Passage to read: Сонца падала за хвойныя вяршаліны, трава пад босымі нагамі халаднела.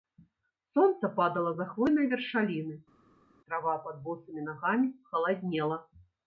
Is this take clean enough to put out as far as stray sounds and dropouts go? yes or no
yes